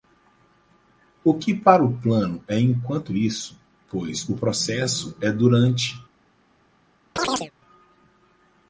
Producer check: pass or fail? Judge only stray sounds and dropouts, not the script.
fail